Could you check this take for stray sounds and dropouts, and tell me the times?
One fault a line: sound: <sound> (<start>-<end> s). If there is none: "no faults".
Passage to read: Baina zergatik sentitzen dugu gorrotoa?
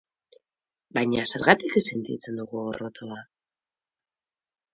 no faults